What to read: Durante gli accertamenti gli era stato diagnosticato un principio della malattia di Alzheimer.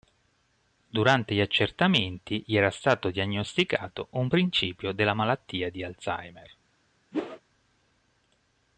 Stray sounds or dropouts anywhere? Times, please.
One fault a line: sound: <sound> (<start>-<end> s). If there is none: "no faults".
sound: whoosh (7.1-7.4 s)